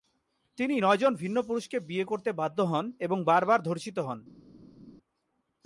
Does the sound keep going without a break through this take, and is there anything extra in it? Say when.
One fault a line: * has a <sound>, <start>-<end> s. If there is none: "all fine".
all fine